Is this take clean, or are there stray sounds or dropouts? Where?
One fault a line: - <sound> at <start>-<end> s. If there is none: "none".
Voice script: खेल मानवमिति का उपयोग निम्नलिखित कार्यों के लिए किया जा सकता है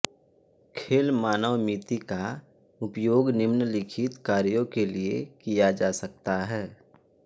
none